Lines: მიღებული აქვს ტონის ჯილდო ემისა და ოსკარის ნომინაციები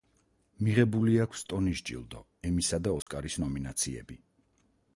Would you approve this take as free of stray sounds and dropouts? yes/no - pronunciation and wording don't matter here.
no